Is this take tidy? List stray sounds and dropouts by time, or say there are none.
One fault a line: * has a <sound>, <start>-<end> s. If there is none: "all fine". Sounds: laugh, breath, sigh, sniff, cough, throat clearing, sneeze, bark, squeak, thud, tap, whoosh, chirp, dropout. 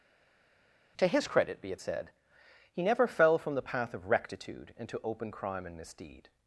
all fine